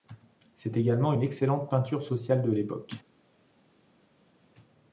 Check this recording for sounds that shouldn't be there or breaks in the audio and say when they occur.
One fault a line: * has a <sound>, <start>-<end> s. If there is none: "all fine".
all fine